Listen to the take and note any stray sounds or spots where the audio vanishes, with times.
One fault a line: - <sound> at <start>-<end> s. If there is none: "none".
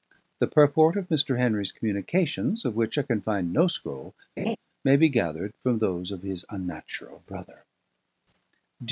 - laugh at 4.4-4.6 s